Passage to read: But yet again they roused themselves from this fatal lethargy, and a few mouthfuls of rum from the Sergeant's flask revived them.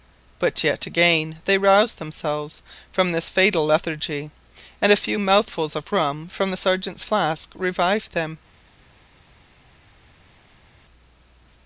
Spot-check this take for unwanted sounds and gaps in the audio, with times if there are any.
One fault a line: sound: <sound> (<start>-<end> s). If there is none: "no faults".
no faults